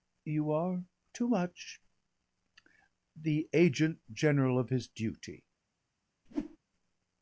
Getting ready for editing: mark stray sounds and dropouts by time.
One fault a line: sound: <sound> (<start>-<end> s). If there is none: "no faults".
sound: whoosh (6.3-6.6 s)